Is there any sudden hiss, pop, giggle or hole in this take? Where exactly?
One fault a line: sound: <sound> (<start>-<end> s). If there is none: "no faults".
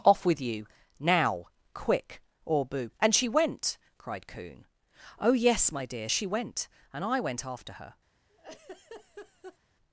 sound: laugh (8.3-9.6 s)